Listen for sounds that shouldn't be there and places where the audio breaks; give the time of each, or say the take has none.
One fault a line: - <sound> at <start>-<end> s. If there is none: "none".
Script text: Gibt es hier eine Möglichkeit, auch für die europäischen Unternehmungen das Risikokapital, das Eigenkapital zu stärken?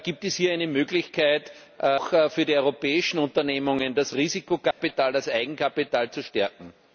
- dropout at 4.7-4.8 s